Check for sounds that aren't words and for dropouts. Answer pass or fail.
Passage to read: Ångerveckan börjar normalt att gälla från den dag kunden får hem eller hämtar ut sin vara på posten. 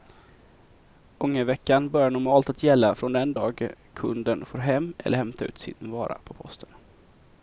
pass